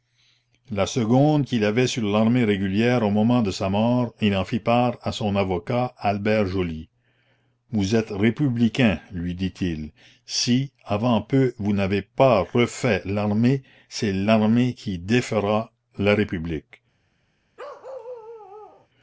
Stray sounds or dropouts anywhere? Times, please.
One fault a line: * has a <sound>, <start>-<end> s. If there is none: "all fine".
* has a bark, 17.6-18.9 s